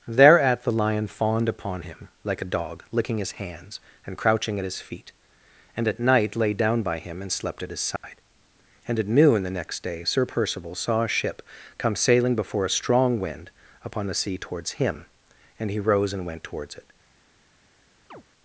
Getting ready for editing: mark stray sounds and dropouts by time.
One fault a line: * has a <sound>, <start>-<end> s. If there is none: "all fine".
* has a dropout, 8.0-8.0 s
* has a chirp, 18.1-18.2 s